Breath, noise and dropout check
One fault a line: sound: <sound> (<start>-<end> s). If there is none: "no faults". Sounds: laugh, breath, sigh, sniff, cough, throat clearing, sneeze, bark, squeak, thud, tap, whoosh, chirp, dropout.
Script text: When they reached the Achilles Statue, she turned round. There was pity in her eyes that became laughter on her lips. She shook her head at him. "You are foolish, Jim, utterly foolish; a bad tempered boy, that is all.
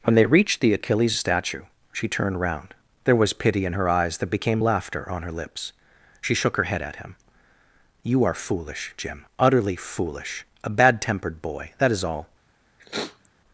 sound: sniff (12.8-13.3 s)